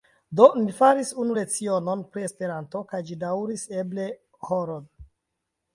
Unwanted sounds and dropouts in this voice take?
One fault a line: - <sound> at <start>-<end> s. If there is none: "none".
none